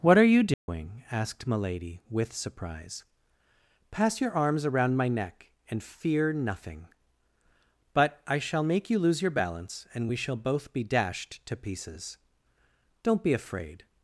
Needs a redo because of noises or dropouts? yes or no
yes